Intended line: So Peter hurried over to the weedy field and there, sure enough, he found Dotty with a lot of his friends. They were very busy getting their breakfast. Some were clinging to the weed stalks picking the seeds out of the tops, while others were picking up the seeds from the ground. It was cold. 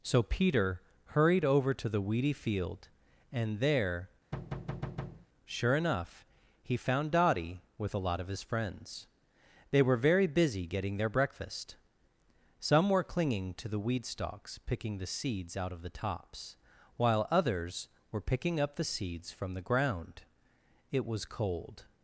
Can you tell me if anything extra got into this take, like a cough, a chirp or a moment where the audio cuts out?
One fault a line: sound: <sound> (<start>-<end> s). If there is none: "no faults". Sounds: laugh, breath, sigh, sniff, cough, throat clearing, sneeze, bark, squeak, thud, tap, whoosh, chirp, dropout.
sound: thud (4.3-5.3 s)